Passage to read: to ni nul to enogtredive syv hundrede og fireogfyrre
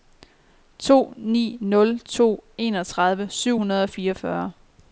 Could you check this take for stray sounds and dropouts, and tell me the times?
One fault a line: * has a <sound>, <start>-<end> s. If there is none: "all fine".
all fine